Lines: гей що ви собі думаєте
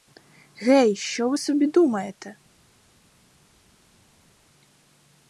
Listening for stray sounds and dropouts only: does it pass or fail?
pass